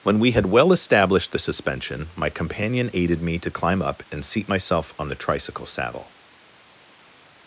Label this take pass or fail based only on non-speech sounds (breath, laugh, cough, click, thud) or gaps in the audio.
pass